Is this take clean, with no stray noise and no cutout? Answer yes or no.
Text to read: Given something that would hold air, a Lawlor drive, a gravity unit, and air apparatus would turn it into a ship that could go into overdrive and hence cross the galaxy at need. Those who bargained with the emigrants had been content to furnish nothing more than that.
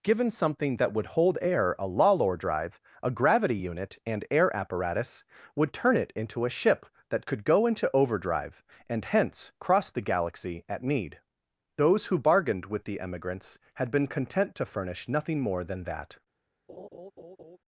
no